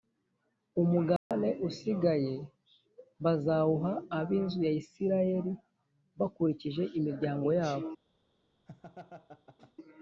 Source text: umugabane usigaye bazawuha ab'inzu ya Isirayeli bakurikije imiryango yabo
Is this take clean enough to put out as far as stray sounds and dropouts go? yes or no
no